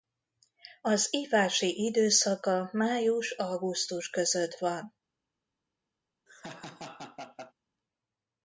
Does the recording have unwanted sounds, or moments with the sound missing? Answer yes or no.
yes